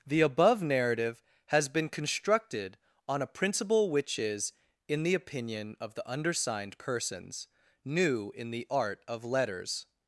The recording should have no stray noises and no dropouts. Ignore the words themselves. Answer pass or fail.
pass